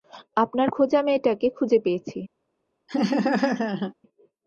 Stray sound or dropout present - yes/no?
yes